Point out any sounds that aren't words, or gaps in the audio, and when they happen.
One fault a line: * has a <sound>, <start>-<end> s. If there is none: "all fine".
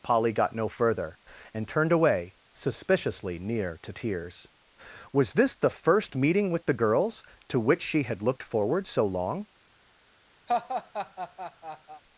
* has a laugh, 10.5-12.0 s